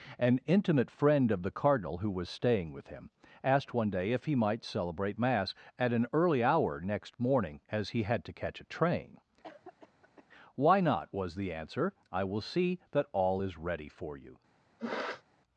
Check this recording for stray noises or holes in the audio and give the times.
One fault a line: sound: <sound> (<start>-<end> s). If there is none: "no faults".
sound: cough (9.4-10.3 s)
sound: sniff (14.8-15.2 s)